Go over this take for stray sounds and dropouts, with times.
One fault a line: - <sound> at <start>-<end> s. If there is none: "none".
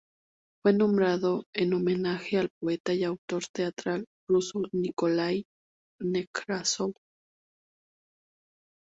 none